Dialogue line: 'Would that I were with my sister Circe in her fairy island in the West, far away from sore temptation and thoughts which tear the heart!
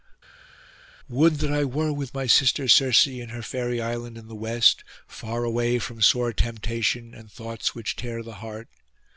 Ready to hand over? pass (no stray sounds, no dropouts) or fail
pass